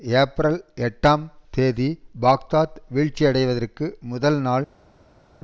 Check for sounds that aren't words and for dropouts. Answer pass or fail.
pass